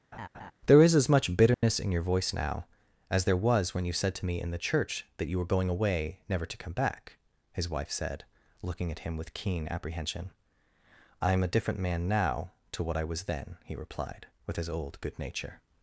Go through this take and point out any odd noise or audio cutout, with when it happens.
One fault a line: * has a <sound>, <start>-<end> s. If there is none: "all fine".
* has a laugh, 0.1-0.5 s
* has a dropout, 1.5-1.6 s